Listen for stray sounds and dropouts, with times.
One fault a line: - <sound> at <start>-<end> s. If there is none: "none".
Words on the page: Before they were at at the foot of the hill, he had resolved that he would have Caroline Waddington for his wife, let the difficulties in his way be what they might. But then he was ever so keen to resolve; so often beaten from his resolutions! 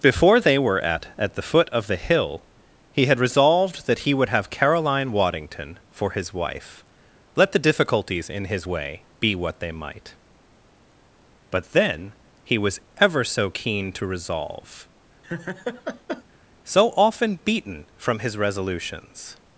- laugh at 15.2-16.2 s